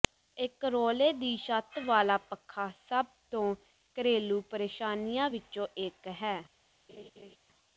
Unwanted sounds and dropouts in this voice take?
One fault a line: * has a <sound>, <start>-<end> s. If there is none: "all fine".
* has a laugh, 6.9-7.4 s